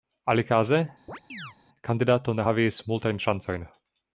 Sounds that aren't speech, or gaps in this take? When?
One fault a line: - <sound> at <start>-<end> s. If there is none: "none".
- chirp at 1.1-1.6 s